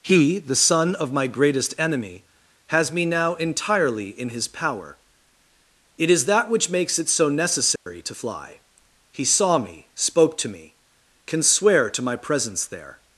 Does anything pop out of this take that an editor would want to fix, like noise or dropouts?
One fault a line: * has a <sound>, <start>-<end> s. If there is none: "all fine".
* has a dropout, 7.8-7.9 s